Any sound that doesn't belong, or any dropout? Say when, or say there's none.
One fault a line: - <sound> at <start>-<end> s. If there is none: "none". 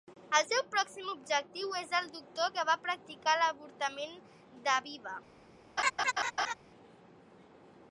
- laugh at 5.8-6.5 s